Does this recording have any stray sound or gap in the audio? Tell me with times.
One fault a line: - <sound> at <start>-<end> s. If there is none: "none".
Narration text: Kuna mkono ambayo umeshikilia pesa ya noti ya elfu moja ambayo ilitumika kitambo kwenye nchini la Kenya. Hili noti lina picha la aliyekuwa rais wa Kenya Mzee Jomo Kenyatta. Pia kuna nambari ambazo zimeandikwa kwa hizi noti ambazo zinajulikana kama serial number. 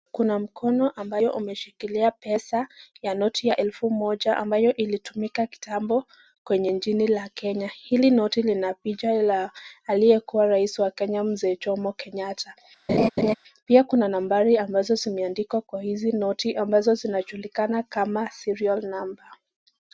- laugh at 12.9-13.3 s